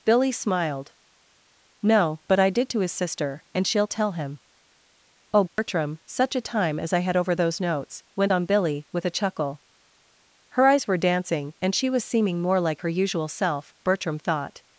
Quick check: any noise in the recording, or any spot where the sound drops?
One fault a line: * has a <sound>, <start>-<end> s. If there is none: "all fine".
* has a dropout, 5.5-5.6 s